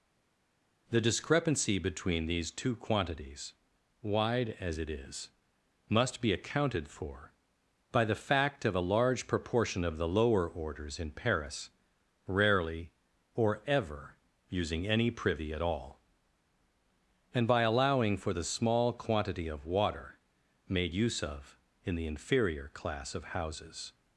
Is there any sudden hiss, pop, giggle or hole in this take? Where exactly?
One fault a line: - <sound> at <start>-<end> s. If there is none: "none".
none